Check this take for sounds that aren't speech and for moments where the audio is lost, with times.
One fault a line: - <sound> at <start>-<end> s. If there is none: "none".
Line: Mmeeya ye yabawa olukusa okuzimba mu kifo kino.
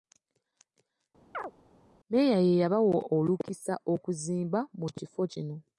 - chirp at 1.3-1.5 s